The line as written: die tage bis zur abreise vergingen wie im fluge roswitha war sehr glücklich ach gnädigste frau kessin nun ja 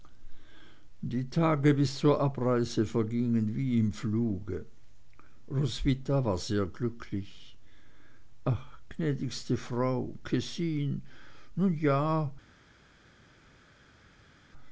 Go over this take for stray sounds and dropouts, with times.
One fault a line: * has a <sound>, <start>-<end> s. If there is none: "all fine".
all fine